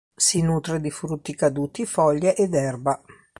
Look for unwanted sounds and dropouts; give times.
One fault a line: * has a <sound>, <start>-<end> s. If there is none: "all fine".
all fine